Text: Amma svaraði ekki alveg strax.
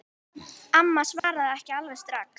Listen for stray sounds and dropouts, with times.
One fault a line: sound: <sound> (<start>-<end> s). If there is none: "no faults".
sound: dropout (1.2-1.2 s)